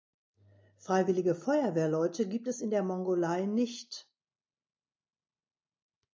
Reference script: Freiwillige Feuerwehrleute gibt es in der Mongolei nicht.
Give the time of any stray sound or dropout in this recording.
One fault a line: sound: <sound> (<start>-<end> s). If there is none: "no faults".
no faults